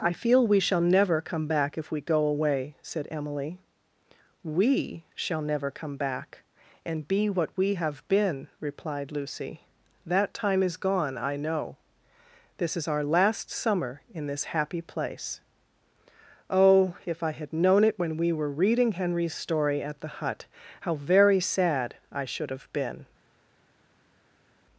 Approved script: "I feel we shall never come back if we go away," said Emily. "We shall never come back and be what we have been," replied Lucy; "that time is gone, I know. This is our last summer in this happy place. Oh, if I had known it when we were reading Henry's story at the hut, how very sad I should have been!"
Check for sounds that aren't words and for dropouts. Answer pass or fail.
pass